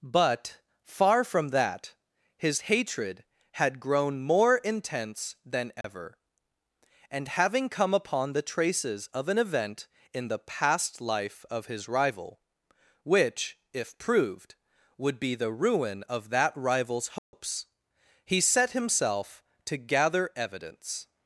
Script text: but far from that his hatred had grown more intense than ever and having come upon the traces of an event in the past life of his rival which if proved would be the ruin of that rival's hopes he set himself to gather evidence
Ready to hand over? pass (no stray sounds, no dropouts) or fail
fail